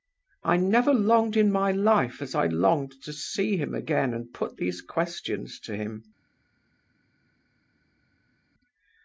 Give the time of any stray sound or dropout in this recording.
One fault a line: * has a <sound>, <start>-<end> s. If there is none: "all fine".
all fine